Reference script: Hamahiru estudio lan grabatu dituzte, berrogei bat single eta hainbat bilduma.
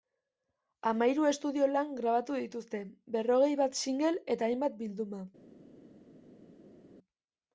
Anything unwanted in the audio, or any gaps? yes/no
no